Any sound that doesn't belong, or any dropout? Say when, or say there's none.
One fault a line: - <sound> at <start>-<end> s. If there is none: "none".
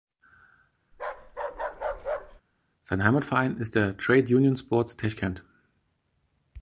- bark at 0.9-2.4 s